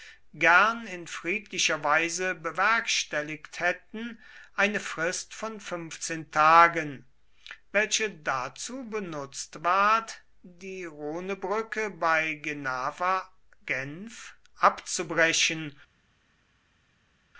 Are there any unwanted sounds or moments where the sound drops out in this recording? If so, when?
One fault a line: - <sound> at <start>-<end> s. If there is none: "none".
none